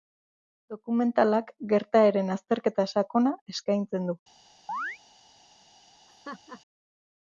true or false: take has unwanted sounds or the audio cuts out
true